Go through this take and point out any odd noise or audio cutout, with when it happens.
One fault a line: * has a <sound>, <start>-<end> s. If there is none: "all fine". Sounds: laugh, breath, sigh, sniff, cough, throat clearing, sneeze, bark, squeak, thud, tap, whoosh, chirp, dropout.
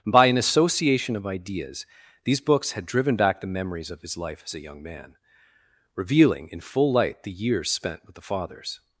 all fine